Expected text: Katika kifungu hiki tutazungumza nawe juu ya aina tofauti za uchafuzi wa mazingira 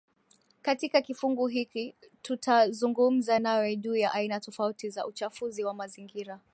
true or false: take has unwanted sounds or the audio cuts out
false